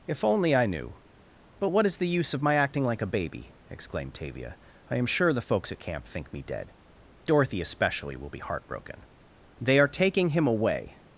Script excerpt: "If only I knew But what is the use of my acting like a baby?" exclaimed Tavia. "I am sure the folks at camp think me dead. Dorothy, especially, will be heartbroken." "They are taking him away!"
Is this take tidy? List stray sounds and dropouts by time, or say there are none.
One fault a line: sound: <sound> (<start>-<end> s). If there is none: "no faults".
no faults